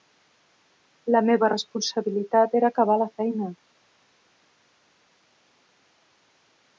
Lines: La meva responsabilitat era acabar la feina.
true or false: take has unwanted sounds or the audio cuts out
false